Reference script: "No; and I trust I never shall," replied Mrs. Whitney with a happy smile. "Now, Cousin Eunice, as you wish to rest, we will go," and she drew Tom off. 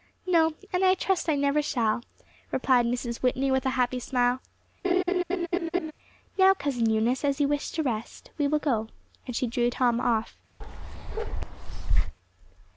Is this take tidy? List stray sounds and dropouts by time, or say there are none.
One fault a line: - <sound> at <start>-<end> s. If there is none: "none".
- laugh at 4.8-5.9 s
- bark at 10.6-12.2 s